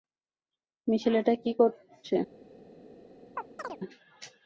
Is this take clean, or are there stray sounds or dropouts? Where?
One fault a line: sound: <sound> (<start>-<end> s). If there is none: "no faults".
sound: chirp (3.4-3.8 s)